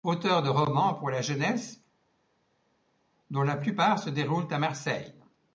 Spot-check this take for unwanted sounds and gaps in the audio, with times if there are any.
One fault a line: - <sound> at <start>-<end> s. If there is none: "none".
none